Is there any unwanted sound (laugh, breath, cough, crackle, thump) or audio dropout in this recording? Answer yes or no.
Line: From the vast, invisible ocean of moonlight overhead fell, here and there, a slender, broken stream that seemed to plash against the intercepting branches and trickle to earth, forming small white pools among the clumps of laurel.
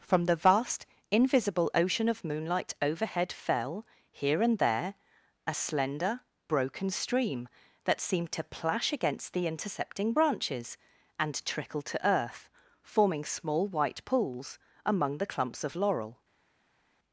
no